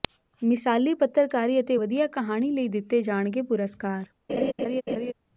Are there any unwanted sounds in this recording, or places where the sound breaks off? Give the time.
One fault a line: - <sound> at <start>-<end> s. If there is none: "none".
- laugh at 4.3-5.1 s